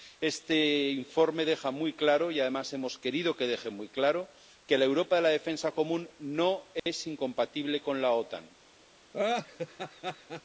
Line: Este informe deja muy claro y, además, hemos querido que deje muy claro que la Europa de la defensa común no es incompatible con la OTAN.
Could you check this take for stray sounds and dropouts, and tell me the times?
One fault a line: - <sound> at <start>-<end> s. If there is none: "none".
- dropout at 6.8-6.9 s
- laugh at 9.1-10.4 s